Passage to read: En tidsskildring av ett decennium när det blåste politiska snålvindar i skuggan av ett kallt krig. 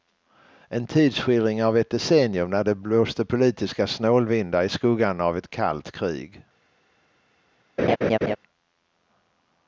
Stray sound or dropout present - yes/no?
yes